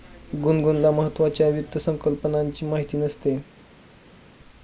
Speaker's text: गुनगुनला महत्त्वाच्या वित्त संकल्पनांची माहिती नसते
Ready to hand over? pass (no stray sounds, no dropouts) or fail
pass